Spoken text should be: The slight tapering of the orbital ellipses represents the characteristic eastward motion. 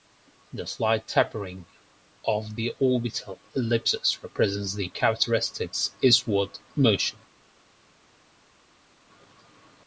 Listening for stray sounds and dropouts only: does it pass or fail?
pass